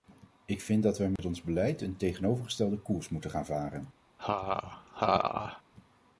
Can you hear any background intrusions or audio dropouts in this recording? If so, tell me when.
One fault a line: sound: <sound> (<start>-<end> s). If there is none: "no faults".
sound: dropout (1.2-1.2 s)
sound: laugh (4.2-5.6 s)